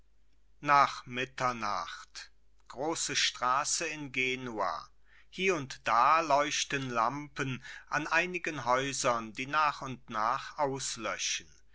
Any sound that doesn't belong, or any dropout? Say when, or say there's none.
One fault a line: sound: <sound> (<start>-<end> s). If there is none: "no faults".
no faults